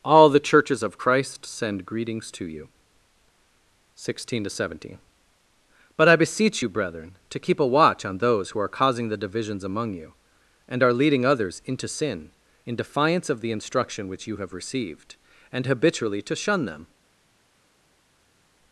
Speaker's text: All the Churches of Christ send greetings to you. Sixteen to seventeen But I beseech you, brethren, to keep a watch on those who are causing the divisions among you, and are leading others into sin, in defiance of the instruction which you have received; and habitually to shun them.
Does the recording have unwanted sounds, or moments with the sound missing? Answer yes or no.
no